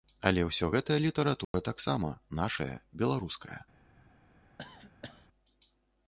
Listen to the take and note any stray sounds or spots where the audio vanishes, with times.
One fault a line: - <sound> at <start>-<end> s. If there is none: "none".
- dropout at 1.4-1.5 s
- cough at 4.6-5.3 s